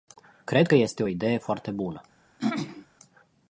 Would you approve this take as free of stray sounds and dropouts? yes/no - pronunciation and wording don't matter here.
no